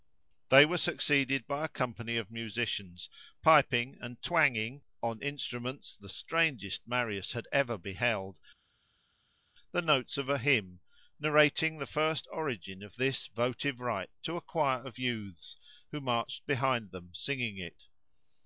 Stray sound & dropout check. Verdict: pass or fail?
pass